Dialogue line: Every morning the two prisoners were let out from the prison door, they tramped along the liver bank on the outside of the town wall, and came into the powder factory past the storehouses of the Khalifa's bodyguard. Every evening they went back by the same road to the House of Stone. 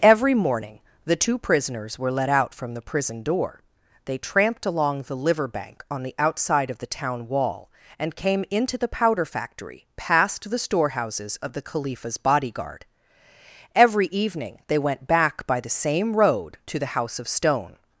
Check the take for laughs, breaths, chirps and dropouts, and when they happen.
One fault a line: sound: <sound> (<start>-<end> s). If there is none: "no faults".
no faults